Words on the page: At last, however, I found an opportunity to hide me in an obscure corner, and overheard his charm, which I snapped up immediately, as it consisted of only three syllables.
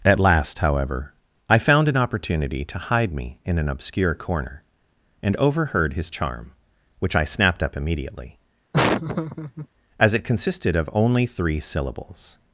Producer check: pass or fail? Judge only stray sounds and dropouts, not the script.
fail